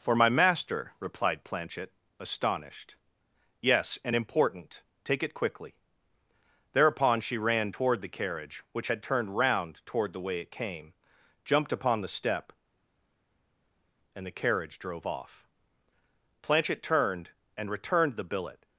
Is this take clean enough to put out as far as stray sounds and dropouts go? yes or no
yes